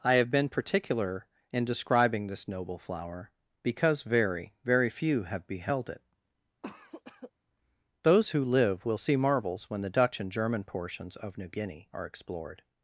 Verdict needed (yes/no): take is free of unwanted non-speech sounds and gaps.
no